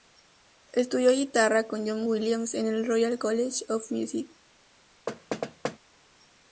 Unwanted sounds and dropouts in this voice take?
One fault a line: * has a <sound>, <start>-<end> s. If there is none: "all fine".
* has a thud, 5.1-5.8 s